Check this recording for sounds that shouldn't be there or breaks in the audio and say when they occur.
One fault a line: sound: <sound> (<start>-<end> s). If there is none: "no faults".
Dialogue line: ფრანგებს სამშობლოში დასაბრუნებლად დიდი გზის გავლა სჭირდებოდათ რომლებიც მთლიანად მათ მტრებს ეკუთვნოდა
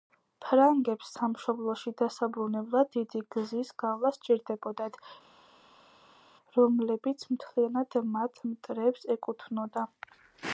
no faults